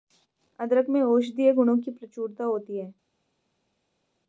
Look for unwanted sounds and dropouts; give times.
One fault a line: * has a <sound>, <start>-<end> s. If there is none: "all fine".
all fine